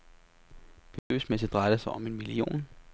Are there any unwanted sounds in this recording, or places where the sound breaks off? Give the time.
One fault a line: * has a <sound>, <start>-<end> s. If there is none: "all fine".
* has a dropout, 1.0-1.1 s